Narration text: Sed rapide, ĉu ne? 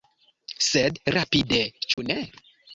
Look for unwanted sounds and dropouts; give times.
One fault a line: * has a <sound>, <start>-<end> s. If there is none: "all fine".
* has a dropout, 1.9-2.0 s